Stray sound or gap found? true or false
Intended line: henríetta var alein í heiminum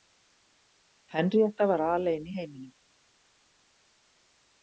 false